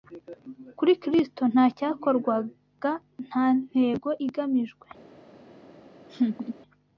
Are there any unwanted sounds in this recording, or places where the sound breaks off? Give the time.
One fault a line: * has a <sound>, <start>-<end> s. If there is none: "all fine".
* has a laugh, 6.1-6.6 s